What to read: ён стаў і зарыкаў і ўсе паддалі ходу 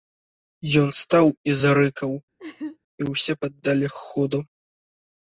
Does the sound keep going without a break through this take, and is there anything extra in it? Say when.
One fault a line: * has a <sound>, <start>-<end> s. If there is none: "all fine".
* has a laugh, 2.4-2.8 s